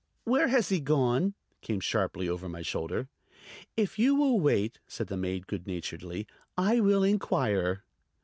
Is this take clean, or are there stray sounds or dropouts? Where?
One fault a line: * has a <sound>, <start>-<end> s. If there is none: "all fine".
all fine